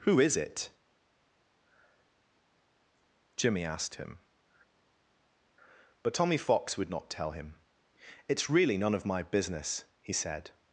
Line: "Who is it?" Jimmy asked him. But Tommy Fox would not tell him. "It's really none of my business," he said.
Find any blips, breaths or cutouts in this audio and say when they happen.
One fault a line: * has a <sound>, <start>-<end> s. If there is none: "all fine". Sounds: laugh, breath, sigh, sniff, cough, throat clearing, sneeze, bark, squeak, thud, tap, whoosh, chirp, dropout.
all fine